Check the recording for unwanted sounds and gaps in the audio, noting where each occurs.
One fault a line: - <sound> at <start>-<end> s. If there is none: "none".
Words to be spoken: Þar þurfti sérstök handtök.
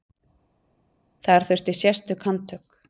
none